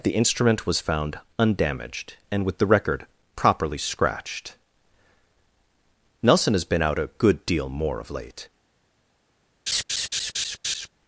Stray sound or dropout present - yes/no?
yes